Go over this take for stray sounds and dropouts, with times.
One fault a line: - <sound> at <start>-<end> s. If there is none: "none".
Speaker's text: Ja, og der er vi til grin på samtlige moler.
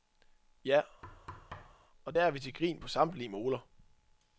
- thud at 1.0-1.9 s